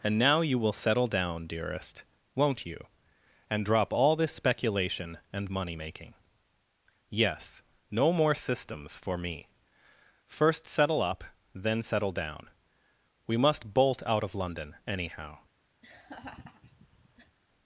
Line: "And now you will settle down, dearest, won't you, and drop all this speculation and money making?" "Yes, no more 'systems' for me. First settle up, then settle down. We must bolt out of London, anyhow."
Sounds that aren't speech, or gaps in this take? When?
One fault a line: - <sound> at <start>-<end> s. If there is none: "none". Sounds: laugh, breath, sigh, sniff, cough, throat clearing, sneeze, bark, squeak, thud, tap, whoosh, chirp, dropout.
- laugh at 15.8-17.4 s